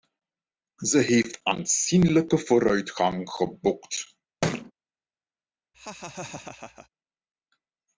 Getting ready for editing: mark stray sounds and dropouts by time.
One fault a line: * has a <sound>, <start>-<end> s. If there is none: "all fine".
* has a thud, 4.4-4.7 s
* has a laugh, 5.7-6.9 s